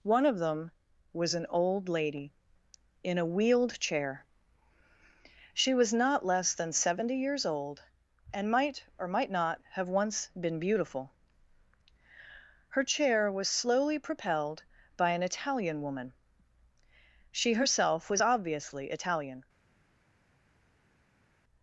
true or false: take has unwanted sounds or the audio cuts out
false